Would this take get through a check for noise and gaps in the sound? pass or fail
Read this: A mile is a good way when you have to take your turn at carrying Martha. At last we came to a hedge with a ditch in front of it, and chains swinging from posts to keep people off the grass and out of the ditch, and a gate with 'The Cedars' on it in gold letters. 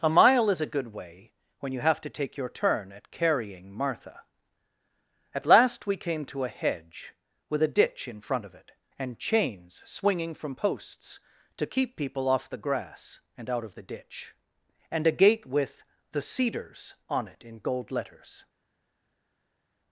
pass